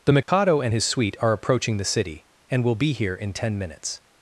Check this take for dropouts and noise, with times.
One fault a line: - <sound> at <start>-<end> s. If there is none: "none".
- dropout at 0.2-0.3 s